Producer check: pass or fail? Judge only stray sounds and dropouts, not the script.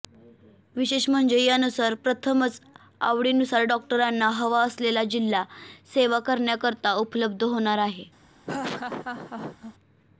fail